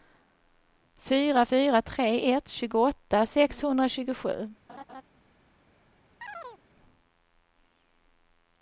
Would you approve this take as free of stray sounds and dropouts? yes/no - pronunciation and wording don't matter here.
no